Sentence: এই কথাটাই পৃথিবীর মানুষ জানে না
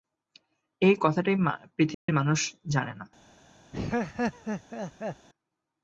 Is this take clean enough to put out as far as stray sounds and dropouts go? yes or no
no